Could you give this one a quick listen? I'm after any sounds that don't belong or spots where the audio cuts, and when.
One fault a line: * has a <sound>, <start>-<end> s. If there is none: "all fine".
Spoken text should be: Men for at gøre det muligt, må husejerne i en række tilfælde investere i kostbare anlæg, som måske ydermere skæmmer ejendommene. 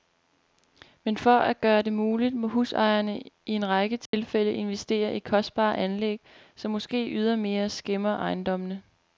* has a dropout, 4.1-4.1 s